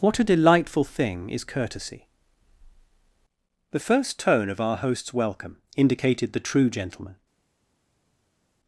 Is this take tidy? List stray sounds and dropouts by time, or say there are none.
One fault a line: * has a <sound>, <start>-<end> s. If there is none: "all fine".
all fine